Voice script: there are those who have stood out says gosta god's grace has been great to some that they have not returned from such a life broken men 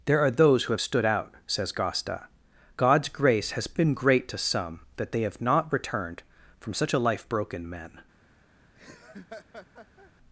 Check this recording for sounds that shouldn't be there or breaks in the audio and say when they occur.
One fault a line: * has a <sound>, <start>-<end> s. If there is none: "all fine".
* has a laugh, 8.7-10.1 s